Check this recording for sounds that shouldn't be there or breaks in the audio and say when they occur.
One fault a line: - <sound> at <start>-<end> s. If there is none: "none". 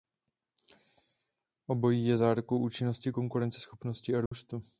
- dropout at 4.3-4.3 s